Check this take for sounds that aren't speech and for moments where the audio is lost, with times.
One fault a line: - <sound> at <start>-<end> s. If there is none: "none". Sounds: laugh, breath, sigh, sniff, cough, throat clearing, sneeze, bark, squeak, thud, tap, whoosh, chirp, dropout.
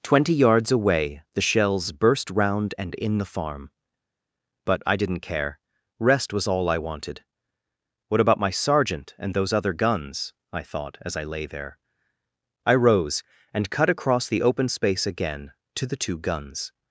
none